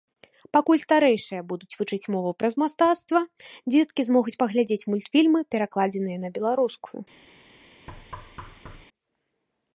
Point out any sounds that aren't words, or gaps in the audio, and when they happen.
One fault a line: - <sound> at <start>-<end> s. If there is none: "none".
- thud at 7.9-8.9 s